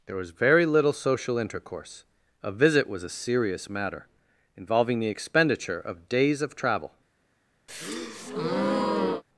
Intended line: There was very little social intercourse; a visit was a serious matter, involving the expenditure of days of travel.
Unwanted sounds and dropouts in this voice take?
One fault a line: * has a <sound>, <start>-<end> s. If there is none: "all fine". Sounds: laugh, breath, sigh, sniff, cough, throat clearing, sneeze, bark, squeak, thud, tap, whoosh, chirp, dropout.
* has a breath, 7.7-9.2 s